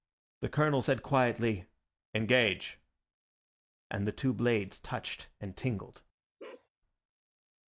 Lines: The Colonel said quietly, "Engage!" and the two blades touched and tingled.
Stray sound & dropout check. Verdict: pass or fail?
fail